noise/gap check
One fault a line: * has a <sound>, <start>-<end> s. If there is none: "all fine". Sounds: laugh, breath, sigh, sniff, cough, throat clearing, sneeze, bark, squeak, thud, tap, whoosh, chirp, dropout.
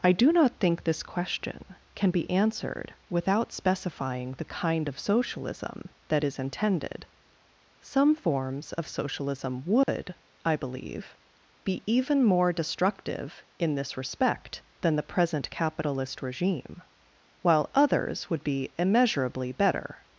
* has a dropout, 9.8-9.9 s